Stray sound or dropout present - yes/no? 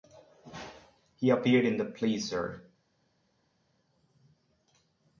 no